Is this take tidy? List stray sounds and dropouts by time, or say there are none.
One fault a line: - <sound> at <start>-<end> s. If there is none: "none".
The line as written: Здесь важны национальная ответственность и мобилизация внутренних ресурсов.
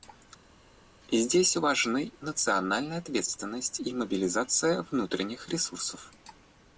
none